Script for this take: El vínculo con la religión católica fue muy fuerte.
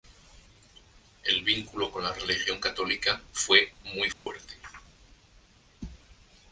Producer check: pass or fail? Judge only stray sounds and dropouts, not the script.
fail